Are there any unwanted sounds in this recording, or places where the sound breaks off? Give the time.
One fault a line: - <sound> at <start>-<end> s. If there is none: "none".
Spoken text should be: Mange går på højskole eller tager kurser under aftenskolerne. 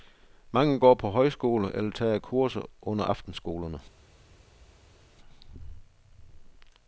none